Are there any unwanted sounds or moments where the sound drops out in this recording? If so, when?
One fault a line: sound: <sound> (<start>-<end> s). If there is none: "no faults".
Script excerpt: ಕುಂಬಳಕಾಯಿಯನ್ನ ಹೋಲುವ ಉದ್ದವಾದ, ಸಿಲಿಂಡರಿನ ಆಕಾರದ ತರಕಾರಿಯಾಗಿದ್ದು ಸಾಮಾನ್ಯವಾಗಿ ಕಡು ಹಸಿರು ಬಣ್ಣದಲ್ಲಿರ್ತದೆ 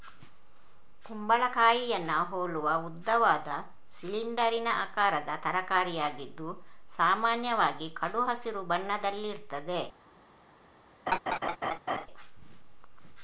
sound: laugh (11.1-12.1 s)